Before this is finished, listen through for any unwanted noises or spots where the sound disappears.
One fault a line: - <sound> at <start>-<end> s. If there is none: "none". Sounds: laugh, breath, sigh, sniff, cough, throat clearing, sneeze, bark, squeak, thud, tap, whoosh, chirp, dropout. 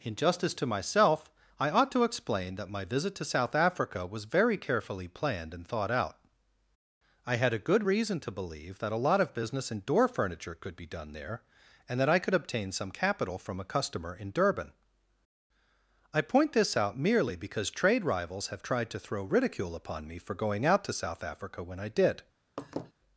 - laugh at 22.6-22.9 s